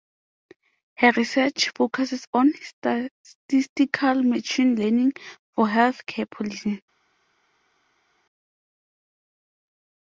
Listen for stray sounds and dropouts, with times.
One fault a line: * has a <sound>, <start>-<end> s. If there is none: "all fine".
all fine